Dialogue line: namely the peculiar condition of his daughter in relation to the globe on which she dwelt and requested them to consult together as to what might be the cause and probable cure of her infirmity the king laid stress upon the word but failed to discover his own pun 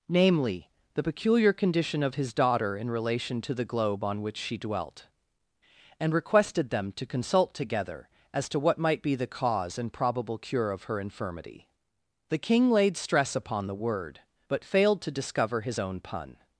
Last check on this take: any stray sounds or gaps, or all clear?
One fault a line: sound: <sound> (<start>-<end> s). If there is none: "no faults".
no faults